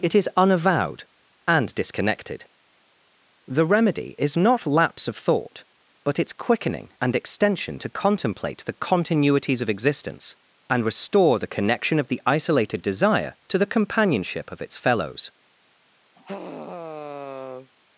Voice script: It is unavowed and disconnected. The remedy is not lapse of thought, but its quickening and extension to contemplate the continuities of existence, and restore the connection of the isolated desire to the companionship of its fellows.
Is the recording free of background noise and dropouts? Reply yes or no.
no